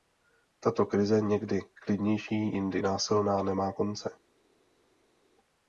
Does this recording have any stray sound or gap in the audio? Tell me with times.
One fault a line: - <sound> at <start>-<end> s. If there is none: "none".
none